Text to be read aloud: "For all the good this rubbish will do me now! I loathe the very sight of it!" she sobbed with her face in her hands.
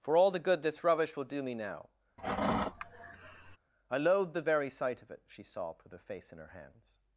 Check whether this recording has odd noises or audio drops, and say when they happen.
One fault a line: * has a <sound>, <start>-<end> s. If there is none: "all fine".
* has a sigh, 2.2-3.6 s